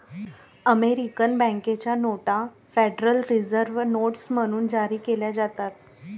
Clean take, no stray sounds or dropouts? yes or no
yes